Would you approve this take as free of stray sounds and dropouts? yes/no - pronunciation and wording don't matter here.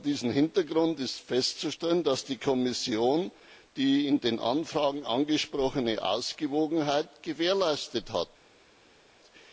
yes